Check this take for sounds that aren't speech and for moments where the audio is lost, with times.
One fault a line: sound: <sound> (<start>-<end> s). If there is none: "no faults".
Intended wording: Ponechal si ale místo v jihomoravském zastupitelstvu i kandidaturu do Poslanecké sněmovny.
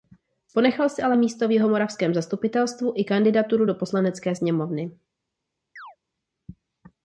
sound: chirp (5.8-6.0 s)